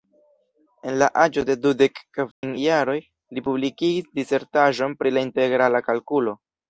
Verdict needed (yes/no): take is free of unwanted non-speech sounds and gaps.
no